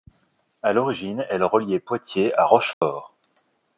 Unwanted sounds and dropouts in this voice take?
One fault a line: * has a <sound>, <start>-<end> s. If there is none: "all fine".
* has a dropout, 2.7-2.8 s